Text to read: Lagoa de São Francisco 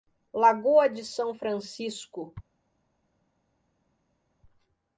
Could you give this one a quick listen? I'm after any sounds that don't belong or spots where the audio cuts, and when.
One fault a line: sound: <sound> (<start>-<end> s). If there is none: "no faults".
no faults